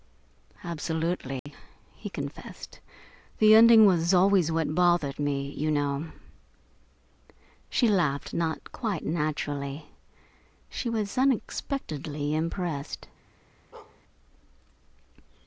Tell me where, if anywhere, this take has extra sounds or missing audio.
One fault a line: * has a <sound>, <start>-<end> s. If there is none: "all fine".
* has a dropout, 1.4-1.5 s
* has a bark, 13.7-14.0 s